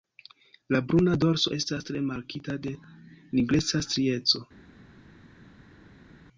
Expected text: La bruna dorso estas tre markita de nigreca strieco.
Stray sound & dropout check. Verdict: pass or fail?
pass